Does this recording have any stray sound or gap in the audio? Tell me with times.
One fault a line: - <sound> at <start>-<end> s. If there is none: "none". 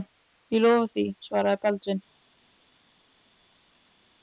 none